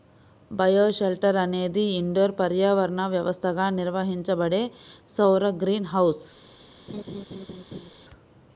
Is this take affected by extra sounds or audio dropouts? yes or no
yes